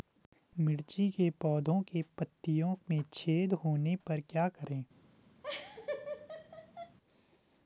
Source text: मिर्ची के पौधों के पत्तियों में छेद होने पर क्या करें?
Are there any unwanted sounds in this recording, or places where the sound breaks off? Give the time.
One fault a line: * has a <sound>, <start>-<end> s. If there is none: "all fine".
* has a laugh, 5.4-7.0 s